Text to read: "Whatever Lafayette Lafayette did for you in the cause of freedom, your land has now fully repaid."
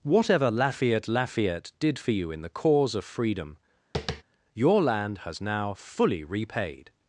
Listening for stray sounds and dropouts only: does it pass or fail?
fail